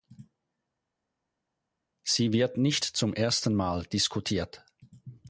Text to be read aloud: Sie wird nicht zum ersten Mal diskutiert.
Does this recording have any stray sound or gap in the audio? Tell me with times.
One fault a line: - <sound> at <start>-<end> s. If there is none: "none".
none